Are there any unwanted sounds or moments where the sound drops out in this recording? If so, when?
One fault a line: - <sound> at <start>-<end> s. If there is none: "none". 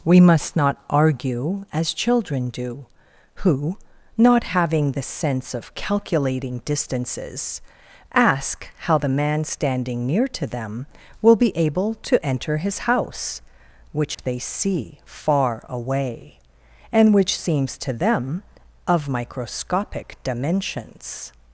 - dropout at 14.1-14.2 s